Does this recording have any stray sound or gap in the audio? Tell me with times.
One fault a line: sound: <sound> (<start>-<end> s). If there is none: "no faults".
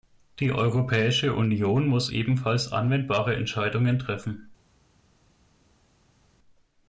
no faults